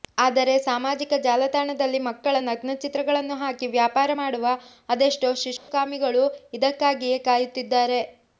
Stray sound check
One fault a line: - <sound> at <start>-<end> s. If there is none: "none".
- dropout at 5.6-5.7 s